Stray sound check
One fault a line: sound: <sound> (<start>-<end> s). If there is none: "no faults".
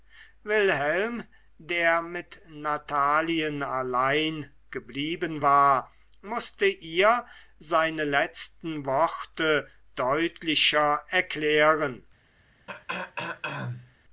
sound: throat clearing (12.7-13.9 s)